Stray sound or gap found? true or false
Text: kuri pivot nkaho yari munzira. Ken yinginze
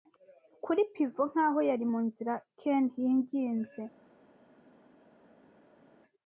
false